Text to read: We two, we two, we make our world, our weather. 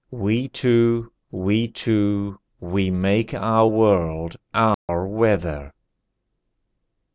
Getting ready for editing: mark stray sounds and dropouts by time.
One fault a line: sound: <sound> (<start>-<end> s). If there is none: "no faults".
sound: dropout (4.7-4.9 s)